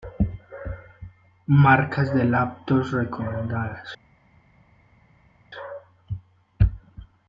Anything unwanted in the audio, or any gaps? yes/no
no